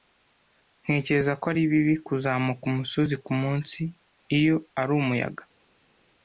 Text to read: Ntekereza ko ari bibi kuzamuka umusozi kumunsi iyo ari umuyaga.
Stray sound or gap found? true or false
false